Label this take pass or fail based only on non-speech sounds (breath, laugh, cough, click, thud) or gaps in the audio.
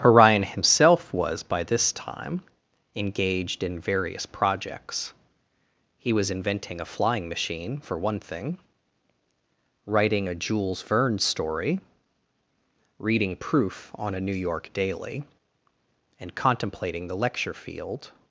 pass